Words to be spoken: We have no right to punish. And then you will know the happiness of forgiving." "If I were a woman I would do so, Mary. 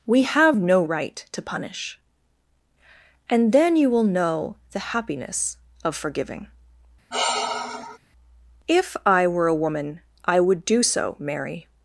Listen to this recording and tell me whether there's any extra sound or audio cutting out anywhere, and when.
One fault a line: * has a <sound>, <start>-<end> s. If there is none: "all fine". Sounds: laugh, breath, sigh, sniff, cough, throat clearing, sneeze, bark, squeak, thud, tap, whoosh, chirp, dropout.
* has a sigh, 7.1-8.0 s